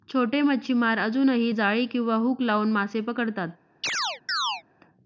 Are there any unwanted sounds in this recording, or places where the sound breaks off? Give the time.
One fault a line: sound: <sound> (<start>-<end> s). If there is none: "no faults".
sound: chirp (3.8-4.6 s)